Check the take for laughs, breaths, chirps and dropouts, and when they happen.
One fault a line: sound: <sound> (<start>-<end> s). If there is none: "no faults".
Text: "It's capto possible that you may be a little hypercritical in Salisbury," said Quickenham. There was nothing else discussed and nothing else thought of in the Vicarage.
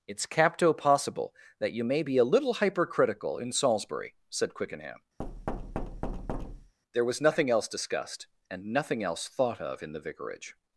sound: thud (5.2-6.7 s)